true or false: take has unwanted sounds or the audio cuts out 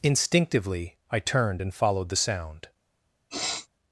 true